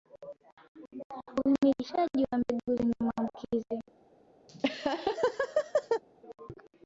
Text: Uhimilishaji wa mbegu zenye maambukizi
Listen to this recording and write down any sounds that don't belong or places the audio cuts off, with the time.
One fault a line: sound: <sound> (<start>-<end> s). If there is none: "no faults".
sound: laugh (4.5-6.0 s)